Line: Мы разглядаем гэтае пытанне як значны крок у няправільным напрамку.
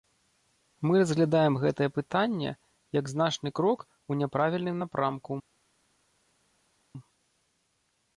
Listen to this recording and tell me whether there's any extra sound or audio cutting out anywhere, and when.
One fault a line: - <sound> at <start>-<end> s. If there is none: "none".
none